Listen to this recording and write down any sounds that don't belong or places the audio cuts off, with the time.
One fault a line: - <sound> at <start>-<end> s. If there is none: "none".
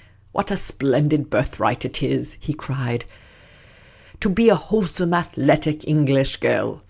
none